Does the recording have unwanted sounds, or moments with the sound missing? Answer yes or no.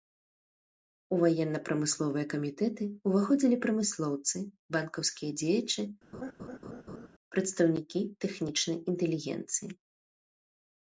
yes